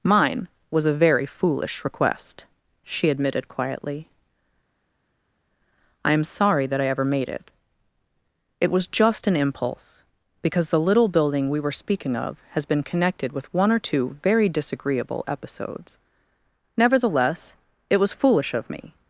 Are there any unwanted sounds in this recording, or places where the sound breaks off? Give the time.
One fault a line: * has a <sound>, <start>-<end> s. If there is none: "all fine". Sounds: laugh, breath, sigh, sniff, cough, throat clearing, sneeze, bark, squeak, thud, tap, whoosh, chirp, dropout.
all fine